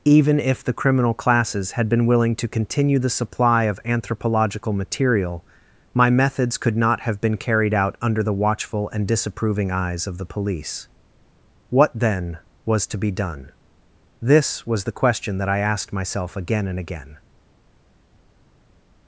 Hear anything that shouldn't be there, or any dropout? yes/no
no